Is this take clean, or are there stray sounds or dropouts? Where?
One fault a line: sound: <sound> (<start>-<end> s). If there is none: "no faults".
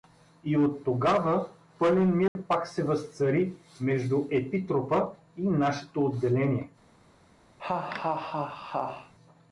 sound: dropout (2.3-2.4 s)
sound: laugh (7.6-9.1 s)